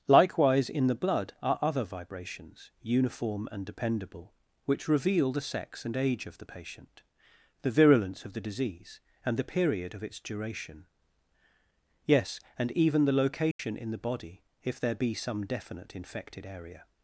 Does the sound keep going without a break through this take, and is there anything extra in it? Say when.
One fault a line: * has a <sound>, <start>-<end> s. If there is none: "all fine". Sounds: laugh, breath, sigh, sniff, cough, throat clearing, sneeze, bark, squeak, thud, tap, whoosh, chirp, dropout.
* has a dropout, 13.5-13.6 s